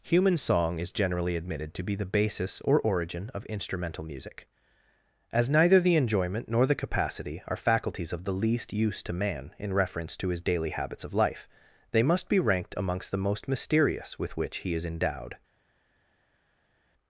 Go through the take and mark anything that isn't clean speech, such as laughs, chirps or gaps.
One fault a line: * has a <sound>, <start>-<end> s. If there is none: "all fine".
all fine